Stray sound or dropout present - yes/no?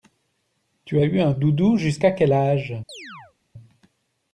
yes